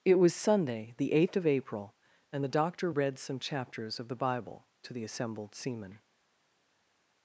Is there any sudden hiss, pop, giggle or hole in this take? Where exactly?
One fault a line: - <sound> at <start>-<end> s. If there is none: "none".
none